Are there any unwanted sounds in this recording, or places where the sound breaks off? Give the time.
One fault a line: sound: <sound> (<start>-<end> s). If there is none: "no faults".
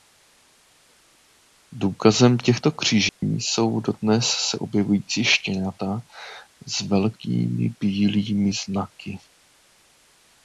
sound: dropout (3.1-3.2 s)